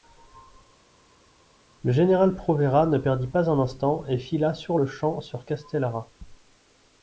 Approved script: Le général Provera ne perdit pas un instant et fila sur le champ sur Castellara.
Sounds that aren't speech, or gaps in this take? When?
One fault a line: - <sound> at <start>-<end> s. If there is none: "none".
none